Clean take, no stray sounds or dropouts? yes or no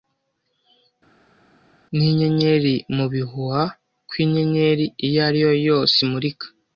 yes